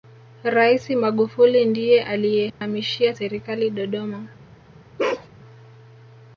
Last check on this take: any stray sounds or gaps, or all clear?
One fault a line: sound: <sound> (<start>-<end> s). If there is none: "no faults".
sound: dropout (2.5-2.6 s)
sound: bark (5.0-5.3 s)